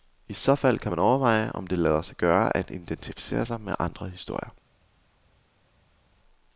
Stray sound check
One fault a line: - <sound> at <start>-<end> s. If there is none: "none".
none